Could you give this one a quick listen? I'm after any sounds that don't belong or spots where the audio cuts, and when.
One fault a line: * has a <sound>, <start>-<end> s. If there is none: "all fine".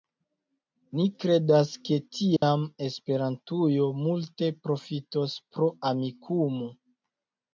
* has a dropout, 2.4-2.4 s